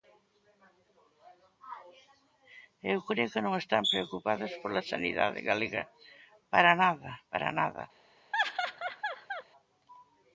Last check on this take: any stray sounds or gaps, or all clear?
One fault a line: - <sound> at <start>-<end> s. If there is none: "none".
- laugh at 8.3-9.4 s